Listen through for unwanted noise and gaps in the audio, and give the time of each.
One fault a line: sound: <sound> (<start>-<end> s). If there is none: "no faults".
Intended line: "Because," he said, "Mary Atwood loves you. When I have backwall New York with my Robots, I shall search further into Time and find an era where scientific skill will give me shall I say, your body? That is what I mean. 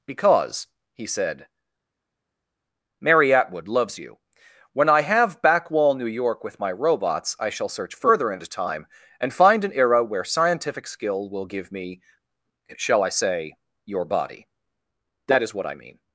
no faults